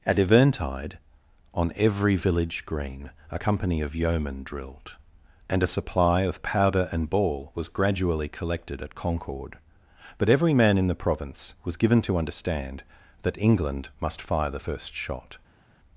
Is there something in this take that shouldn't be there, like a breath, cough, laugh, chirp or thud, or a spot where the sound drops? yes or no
no